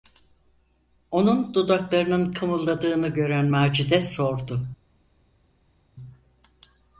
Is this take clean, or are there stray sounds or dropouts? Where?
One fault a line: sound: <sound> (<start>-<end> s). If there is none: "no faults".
no faults